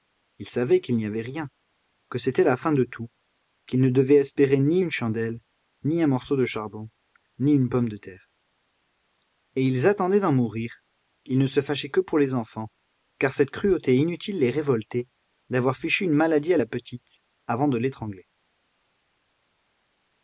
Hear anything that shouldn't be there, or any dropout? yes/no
no